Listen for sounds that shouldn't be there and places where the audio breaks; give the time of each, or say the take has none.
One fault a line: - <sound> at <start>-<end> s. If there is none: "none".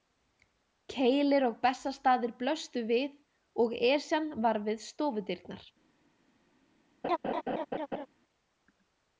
- laugh at 7.0-8.1 s